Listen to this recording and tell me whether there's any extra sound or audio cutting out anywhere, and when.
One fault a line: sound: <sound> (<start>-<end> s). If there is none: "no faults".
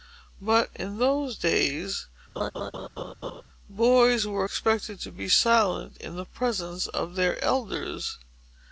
sound: laugh (2.4-3.4 s)